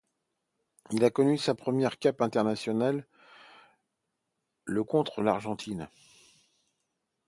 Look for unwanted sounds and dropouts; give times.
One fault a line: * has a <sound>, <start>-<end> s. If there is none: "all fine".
all fine